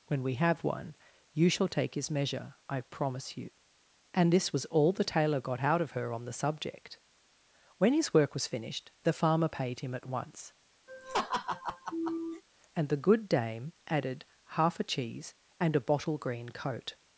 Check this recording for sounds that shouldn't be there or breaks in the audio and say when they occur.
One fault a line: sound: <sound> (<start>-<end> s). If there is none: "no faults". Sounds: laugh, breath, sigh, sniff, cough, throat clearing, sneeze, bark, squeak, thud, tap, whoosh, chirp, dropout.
sound: laugh (10.9-12.4 s)